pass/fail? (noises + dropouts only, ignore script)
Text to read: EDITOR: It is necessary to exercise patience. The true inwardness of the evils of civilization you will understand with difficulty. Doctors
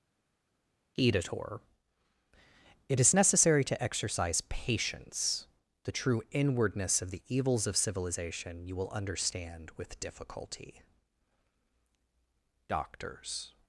pass